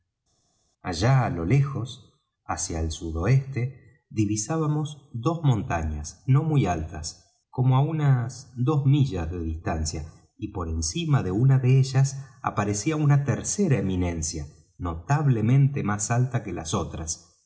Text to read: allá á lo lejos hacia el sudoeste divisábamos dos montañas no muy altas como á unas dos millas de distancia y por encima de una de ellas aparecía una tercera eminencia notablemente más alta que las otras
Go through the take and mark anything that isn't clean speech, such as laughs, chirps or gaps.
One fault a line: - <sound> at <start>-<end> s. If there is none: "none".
none